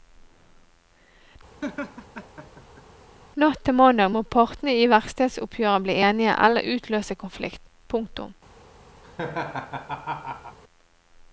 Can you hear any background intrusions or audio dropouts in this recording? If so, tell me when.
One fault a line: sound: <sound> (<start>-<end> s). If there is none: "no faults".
sound: laugh (1.6-2.8 s)
sound: laugh (9.0-10.6 s)